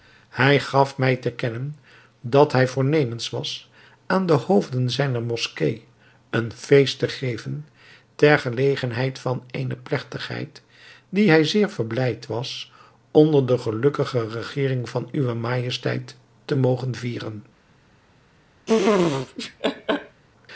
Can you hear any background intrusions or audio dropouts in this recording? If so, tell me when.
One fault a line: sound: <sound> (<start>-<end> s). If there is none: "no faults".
sound: laugh (18.7-20.2 s)